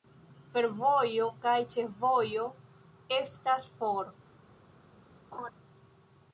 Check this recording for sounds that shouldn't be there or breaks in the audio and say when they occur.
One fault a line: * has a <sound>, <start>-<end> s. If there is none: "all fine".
* has a laugh, 5.3-5.5 s